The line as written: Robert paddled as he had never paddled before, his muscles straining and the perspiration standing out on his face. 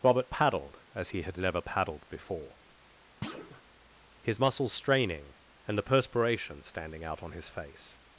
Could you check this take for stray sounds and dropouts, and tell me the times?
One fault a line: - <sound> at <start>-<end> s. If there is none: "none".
- thud at 3.2-3.6 s